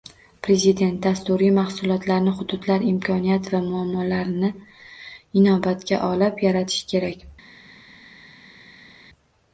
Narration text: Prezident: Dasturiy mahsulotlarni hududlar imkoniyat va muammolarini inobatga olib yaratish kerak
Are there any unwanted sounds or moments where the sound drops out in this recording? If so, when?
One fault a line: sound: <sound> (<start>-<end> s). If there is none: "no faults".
no faults